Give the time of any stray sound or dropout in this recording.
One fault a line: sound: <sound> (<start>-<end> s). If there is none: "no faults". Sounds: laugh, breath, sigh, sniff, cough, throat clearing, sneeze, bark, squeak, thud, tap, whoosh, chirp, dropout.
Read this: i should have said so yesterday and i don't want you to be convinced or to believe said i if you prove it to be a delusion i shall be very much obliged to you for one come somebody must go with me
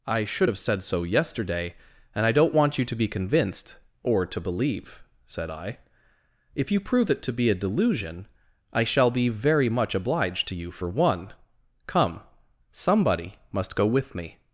no faults